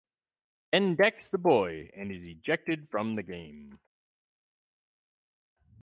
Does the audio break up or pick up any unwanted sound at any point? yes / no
no